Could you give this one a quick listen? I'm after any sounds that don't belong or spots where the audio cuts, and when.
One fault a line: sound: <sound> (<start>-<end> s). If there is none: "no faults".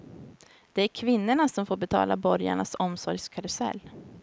no faults